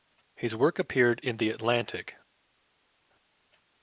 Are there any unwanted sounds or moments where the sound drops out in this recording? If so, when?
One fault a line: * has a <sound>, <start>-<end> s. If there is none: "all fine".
all fine